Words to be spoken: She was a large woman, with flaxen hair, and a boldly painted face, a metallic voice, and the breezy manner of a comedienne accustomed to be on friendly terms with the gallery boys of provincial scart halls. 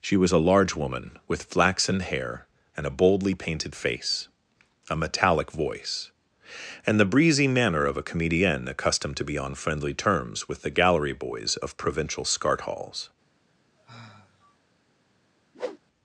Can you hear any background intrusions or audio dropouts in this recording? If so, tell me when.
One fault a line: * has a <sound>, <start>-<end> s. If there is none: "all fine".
* has a sigh, 13.8-14.6 s
* has a whoosh, 15.5-15.8 s